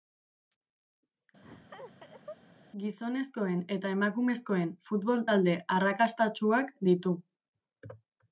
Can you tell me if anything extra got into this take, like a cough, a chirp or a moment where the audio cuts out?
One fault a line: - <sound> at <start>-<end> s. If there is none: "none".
- laugh at 1.4-2.4 s